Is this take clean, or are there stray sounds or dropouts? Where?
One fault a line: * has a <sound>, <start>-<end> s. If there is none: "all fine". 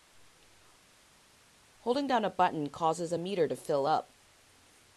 all fine